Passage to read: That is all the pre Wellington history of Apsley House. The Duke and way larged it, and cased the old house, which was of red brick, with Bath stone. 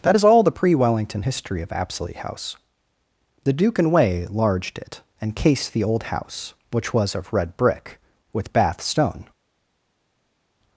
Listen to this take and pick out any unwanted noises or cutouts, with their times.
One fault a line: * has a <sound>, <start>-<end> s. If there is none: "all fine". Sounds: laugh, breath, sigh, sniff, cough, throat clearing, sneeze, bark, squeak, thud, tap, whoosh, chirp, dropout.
all fine